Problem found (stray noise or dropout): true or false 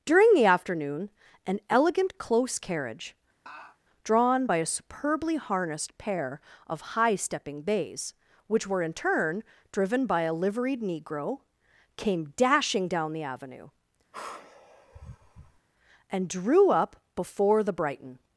true